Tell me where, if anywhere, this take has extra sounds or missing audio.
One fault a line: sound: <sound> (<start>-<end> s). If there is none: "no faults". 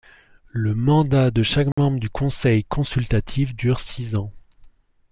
sound: dropout (1.7-1.8 s)